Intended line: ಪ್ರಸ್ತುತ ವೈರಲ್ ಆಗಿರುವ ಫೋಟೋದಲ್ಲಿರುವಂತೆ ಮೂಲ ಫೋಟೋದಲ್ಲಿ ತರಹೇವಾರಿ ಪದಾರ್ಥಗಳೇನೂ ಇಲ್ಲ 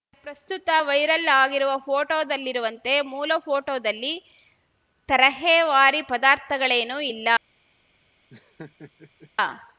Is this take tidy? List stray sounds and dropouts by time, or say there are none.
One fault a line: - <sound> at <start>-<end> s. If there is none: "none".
- laugh at 8.3-9.3 s